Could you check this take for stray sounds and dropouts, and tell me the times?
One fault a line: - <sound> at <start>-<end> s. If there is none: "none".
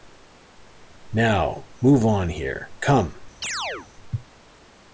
- chirp at 3.4-3.9 s